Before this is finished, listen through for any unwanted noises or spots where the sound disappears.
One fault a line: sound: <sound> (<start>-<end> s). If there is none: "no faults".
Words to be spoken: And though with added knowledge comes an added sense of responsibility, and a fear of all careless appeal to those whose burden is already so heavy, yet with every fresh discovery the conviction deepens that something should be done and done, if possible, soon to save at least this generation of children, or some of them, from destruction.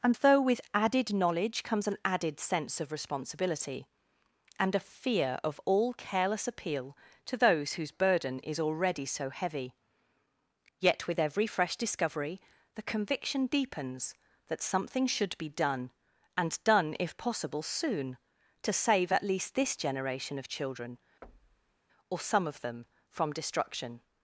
sound: thud (21.2-21.8 s)